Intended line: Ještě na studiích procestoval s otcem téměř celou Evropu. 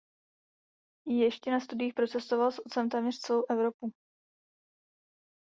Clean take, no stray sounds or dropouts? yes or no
yes